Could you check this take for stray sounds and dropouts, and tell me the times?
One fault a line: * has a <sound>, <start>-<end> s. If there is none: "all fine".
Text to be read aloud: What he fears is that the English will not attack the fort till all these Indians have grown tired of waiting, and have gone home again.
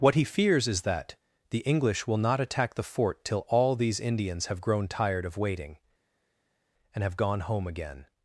all fine